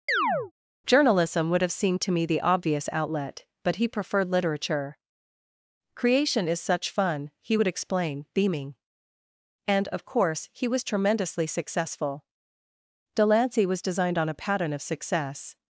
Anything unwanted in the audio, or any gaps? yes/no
yes